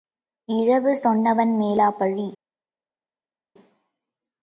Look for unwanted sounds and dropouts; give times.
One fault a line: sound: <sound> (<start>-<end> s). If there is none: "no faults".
no faults